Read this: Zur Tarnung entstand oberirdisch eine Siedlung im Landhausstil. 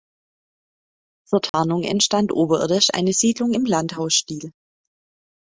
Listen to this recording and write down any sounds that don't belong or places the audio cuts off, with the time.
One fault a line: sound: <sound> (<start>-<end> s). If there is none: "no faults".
sound: dropout (1.5-1.5 s)